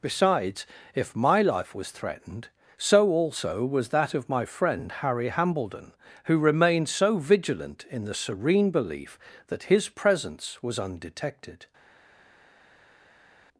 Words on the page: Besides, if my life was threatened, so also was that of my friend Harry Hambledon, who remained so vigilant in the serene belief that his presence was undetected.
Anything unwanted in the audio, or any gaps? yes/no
no